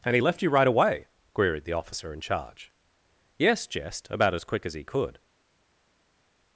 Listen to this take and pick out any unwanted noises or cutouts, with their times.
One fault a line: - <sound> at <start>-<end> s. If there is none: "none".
none